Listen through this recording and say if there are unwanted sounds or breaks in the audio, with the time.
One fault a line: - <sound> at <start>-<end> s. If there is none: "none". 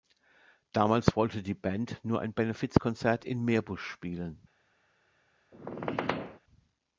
- squeak at 5.5-6.4 s